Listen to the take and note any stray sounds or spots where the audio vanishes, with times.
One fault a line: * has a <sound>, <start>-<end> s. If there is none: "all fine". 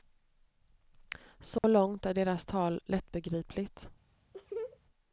* has a dropout, 1.6-1.6 s
* has a laugh, 4.3-4.8 s